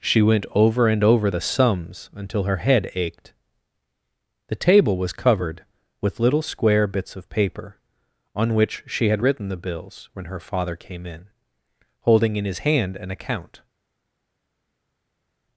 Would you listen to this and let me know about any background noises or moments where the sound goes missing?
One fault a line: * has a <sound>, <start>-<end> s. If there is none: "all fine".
all fine